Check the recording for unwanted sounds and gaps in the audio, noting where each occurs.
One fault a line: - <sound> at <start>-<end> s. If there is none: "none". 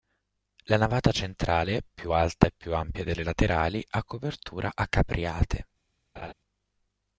- laugh at 6.2-6.3 s